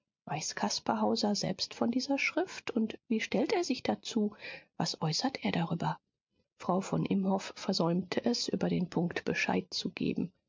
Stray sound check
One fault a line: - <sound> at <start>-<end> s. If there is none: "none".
none